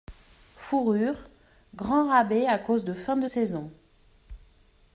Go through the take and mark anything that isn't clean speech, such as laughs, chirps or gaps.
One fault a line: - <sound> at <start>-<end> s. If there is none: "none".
none